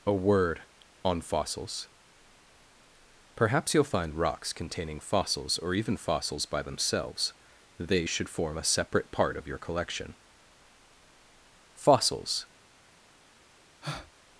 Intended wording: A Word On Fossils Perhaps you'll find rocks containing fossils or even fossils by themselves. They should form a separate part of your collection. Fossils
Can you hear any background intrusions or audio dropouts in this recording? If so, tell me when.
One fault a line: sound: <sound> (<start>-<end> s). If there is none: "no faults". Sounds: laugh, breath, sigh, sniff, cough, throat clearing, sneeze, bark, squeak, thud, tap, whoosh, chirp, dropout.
sound: breath (13.8-14.1 s)